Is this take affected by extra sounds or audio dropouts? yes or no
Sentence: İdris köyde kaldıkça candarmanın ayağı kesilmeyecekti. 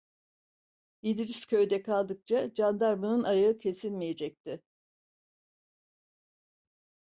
no